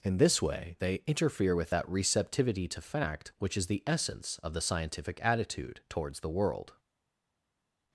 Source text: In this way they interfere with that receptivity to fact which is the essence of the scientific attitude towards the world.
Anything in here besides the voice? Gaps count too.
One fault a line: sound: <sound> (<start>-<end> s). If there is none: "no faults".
no faults